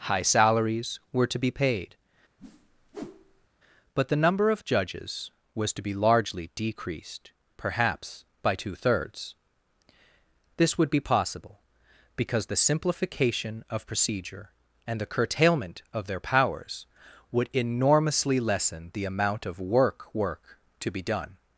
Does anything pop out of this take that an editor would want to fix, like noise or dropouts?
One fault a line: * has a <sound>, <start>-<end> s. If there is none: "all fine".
* has a whoosh, 2.4-3.5 s